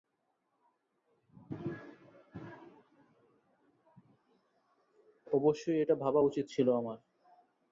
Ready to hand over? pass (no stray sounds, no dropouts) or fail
pass